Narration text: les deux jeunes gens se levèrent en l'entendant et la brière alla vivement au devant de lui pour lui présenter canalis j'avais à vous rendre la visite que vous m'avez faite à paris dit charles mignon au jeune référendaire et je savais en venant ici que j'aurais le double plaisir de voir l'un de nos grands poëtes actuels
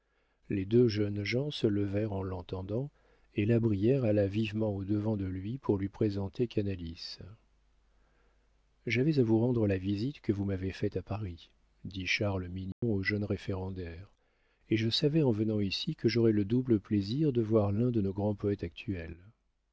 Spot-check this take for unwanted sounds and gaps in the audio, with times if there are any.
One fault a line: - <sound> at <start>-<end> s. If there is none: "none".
- dropout at 12.7-12.8 s